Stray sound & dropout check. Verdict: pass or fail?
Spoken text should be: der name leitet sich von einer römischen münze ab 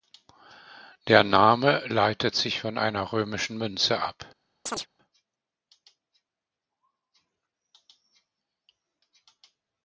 fail